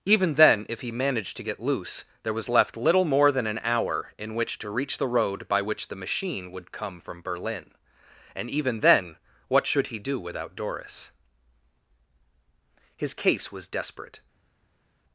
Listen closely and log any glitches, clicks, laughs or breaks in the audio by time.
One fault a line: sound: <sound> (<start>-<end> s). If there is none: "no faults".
no faults